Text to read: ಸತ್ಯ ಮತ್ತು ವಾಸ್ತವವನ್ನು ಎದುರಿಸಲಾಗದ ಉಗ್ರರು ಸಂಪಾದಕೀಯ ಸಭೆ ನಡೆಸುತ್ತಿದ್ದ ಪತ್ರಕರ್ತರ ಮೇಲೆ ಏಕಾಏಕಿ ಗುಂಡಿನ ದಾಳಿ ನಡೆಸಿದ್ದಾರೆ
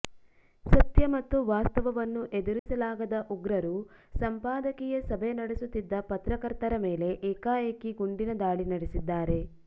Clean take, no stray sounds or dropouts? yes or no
no